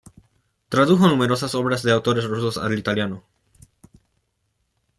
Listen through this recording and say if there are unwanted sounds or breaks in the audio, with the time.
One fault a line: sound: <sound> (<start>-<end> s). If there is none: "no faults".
no faults